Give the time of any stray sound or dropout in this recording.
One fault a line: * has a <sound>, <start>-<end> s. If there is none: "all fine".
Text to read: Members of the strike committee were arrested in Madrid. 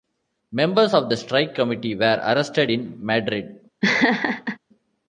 * has a laugh, 3.8-4.6 s